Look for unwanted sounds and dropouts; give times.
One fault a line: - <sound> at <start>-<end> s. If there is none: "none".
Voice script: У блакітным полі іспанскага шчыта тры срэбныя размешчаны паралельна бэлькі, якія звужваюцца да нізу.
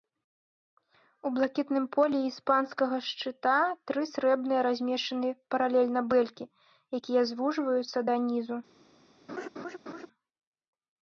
- laugh at 9.3-10.1 s